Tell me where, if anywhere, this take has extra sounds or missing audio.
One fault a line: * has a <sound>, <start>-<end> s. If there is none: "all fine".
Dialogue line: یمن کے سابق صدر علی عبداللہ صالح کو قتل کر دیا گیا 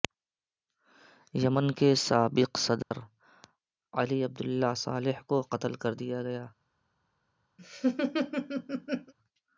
* has a dropout, 2.8-2.9 s
* has a laugh, 7.6-9.1 s